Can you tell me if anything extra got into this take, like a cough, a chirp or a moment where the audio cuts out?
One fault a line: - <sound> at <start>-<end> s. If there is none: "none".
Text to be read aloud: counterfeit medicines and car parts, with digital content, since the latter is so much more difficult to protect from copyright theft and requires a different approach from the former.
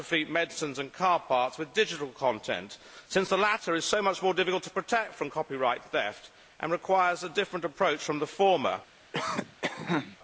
- cough at 9.1-10.2 s